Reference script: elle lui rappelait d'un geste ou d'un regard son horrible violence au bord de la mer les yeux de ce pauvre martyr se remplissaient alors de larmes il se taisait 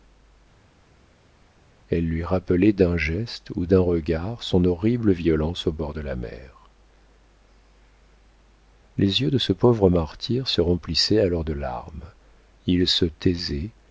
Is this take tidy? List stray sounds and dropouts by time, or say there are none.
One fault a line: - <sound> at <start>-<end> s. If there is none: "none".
none